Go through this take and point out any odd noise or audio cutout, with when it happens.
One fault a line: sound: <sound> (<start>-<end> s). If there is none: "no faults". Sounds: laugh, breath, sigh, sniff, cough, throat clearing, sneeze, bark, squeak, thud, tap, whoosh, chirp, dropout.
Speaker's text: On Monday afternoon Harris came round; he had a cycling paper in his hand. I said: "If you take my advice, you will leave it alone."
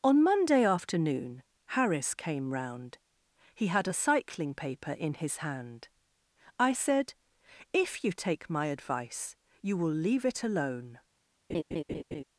sound: laugh (11.5-12.2 s)